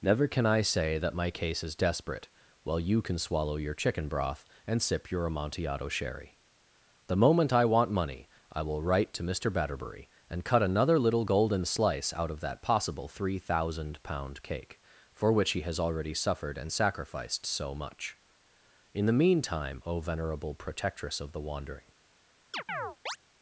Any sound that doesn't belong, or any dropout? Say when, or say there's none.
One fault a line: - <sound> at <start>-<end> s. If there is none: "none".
- chirp at 22.5-23.2 s